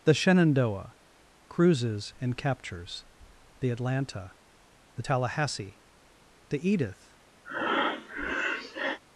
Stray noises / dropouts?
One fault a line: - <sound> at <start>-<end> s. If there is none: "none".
- breath at 7.4-9.0 s